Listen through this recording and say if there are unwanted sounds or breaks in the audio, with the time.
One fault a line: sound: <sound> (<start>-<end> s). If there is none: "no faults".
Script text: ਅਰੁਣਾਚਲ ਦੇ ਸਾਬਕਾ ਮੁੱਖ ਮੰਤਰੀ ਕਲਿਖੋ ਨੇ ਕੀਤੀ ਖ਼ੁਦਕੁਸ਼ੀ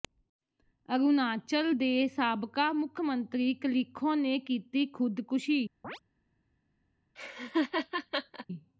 sound: chirp (5.8-6.0 s)
sound: laugh (7.2-8.5 s)